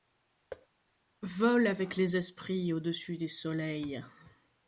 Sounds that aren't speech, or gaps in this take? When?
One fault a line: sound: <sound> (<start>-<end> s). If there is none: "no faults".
sound: thud (0.5-0.7 s)